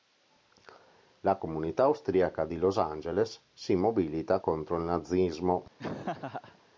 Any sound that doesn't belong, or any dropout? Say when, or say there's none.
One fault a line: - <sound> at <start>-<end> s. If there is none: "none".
- laugh at 5.8-6.6 s